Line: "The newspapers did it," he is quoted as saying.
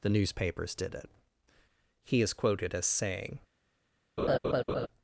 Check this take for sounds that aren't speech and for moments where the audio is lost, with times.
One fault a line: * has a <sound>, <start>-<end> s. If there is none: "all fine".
* has a laugh, 4.2-4.9 s